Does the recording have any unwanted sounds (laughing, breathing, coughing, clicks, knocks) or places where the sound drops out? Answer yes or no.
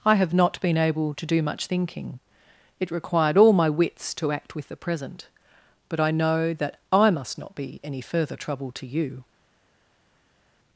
no